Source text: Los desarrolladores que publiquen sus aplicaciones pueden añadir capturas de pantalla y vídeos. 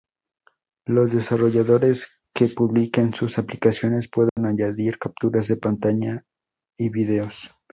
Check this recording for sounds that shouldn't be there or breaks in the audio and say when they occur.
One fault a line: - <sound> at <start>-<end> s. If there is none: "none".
- dropout at 4.3-4.4 s